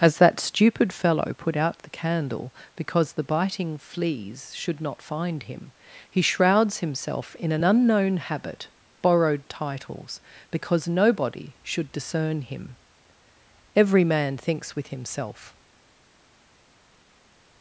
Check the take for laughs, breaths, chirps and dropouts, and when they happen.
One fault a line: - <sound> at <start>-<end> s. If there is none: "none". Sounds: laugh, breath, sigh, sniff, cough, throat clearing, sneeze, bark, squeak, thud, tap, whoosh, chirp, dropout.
none